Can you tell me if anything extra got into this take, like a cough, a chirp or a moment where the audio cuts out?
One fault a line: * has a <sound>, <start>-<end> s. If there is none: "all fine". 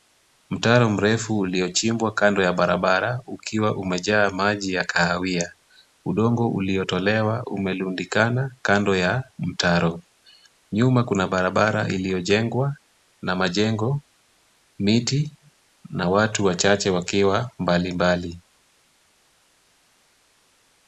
all fine